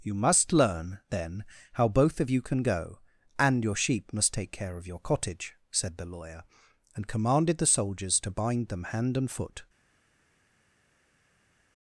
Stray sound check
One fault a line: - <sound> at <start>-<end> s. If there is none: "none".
none